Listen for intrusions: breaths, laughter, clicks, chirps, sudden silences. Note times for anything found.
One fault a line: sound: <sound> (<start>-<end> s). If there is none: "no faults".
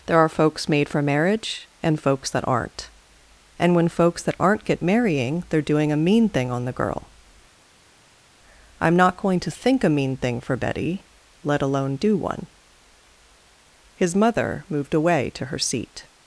no faults